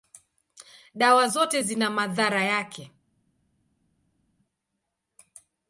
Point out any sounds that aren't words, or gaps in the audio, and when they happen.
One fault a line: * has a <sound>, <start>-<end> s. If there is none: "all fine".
all fine